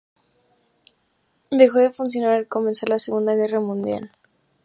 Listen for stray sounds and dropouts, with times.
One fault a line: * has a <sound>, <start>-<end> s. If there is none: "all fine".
all fine